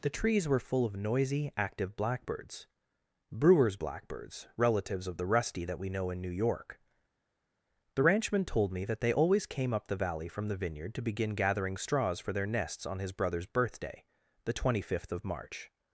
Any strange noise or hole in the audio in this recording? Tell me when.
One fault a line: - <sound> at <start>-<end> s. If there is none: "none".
none